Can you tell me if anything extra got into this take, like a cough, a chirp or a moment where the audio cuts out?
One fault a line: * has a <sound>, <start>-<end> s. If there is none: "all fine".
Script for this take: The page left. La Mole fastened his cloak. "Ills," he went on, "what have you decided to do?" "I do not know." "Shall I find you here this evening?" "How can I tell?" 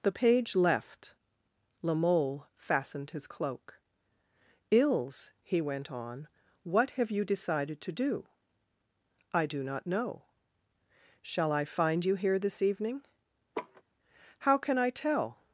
* has a laugh, 13.5-13.8 s